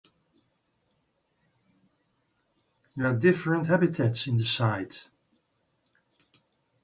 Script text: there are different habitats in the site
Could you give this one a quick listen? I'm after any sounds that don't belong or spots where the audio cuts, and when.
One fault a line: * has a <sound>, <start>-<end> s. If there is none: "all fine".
all fine